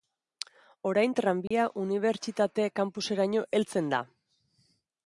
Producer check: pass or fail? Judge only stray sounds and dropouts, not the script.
fail